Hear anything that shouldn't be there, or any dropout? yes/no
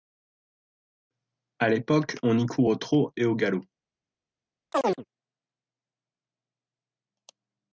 yes